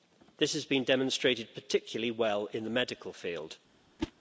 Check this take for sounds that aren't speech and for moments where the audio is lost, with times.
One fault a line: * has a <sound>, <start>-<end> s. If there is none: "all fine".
* has a whoosh, 4.0-4.1 s